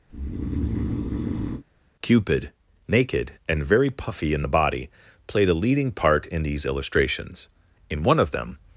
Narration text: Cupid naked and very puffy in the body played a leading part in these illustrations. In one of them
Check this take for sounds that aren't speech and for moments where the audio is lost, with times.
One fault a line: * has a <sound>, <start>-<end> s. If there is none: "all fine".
* has a breath, 0.1-1.6 s